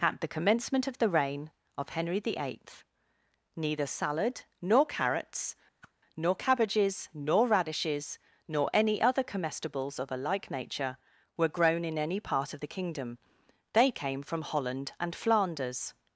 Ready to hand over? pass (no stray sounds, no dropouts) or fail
fail